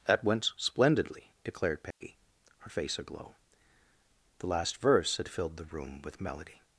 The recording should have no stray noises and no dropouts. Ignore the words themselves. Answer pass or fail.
fail